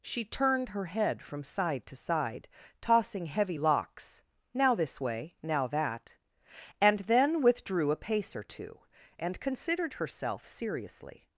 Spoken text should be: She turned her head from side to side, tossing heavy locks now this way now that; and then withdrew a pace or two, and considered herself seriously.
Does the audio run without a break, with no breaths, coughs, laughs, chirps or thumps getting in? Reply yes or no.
yes